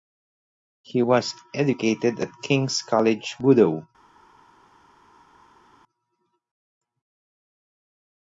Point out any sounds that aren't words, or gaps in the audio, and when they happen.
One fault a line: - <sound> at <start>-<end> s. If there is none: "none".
none